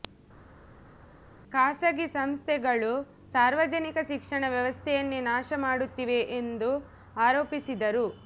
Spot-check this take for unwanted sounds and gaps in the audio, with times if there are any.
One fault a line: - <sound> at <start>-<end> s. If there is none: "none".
none